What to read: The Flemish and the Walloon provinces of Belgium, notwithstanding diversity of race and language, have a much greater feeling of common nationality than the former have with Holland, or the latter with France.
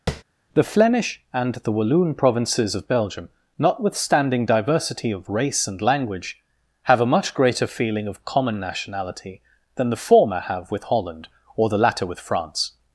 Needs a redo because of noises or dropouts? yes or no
yes